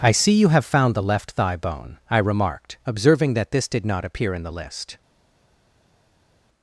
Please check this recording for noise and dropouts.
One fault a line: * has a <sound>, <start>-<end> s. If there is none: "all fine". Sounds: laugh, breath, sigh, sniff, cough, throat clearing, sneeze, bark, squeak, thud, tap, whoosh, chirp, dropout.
all fine